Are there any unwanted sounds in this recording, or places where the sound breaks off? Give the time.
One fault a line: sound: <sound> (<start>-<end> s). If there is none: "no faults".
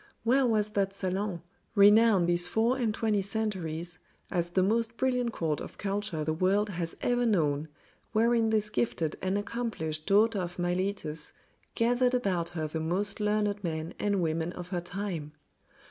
no faults